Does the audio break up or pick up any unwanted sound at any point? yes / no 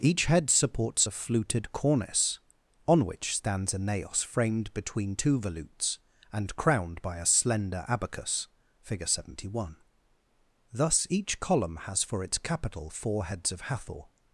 no